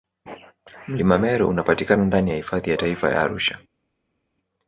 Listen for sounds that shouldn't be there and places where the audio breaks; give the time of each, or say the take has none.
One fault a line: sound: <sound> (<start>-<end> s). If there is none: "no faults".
no faults